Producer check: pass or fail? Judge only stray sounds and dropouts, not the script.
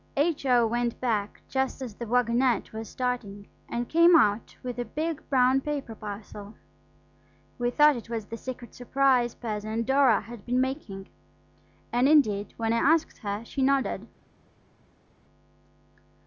pass